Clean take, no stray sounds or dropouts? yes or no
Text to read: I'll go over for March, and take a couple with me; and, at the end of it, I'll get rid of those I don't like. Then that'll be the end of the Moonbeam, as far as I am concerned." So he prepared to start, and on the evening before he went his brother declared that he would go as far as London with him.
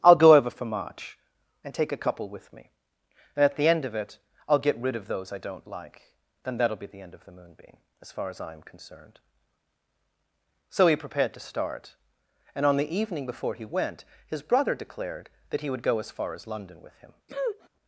no